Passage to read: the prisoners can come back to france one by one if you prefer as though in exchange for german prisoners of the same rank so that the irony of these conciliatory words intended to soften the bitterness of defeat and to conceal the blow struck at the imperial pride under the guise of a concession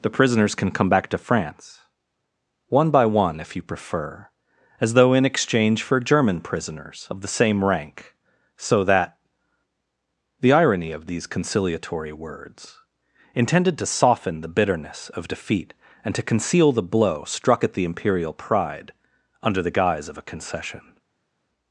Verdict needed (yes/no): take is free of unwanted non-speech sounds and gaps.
yes